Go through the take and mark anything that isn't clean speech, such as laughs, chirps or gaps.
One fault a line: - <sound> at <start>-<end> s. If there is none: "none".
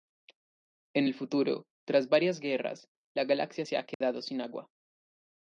- dropout at 3.9-4.0 s